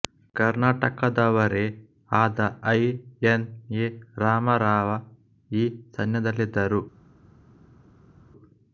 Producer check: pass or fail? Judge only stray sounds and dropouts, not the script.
pass